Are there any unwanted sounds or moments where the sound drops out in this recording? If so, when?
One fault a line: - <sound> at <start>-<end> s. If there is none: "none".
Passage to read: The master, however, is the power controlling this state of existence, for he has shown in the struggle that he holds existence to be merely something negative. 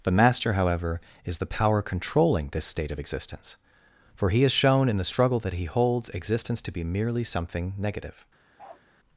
- bark at 8.6-8.8 s